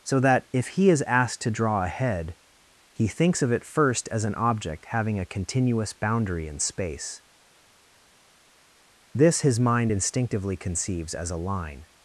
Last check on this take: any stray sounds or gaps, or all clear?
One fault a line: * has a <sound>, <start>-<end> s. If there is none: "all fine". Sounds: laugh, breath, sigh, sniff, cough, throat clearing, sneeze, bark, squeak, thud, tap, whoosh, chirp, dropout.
all fine